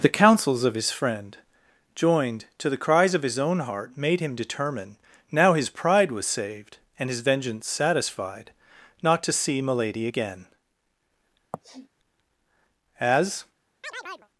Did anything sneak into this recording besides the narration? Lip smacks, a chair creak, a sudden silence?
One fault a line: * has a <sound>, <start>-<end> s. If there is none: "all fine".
* has a sniff, 11.5-11.9 s
* has a chirp, 13.8-14.3 s